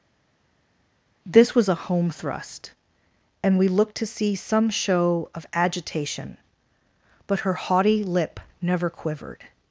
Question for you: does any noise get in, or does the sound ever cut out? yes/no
no